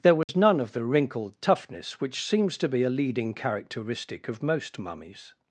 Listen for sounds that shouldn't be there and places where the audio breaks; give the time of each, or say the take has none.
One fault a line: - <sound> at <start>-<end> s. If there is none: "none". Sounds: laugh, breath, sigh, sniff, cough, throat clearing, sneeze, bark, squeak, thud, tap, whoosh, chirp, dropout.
- dropout at 0.2-0.3 s